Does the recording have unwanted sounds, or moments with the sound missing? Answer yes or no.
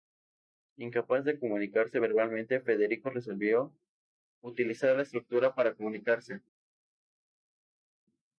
no